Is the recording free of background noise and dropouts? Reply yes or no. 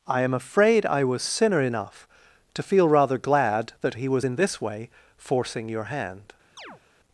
no